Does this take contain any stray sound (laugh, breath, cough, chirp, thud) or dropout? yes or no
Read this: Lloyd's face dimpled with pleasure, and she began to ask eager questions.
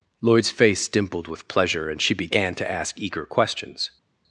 no